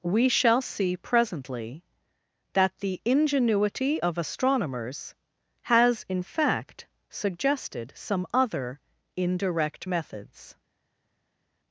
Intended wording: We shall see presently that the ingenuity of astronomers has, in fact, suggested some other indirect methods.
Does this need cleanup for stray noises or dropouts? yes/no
no